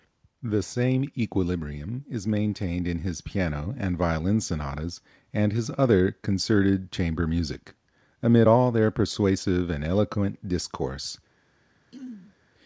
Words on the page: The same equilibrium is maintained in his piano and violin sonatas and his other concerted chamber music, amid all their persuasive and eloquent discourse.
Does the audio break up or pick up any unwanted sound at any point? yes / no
yes